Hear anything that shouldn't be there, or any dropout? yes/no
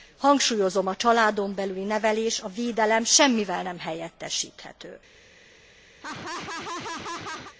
yes